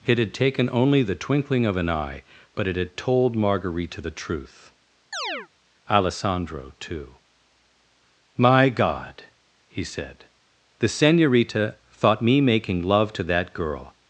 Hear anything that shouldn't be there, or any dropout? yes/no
yes